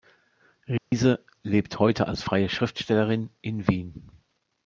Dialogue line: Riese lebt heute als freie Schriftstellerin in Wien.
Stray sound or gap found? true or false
true